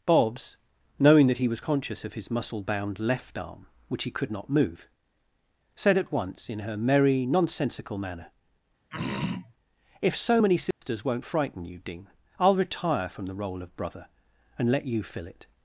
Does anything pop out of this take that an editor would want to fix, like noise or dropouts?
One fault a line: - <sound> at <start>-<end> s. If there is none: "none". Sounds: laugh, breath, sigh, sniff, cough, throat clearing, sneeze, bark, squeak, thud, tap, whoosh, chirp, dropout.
- throat clearing at 8.9-9.5 s
- dropout at 10.7-10.8 s